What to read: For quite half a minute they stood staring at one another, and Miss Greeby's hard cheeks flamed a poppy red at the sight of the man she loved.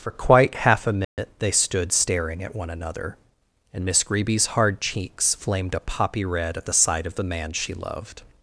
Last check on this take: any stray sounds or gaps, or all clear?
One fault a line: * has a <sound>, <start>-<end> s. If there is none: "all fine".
* has a dropout, 1.0-1.2 s